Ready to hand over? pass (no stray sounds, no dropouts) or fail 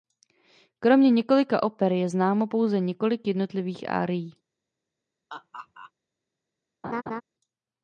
fail